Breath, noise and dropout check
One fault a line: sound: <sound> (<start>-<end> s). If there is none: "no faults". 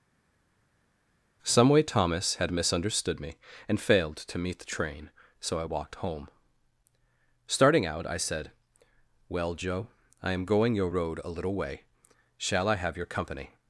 no faults